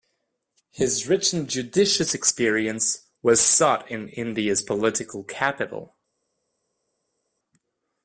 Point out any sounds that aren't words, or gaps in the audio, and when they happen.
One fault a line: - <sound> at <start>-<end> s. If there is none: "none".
none